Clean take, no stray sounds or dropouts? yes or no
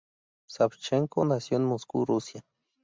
yes